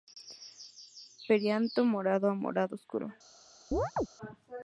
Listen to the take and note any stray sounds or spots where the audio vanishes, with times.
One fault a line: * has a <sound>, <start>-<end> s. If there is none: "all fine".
* has a chirp, 3.7-4.1 s